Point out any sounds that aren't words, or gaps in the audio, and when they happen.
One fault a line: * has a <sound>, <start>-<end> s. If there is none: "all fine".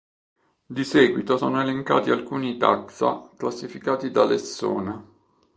all fine